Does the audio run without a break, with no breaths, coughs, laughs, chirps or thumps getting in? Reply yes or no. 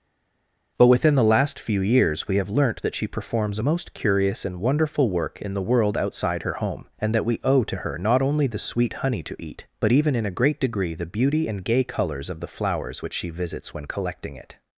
yes